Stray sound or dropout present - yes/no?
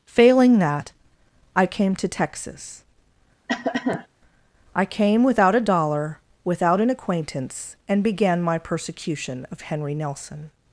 yes